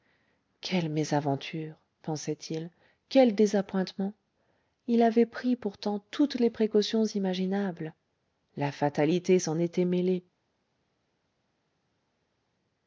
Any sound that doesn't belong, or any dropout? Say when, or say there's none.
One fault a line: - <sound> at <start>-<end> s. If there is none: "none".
none